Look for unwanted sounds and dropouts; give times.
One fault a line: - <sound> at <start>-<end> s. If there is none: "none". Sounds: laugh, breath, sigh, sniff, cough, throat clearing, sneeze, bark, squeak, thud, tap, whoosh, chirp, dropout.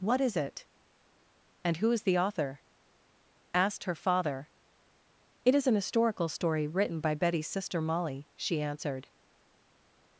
none